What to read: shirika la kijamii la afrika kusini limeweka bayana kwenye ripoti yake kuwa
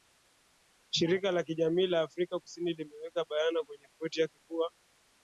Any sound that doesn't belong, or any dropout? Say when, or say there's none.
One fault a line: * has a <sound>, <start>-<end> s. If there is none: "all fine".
all fine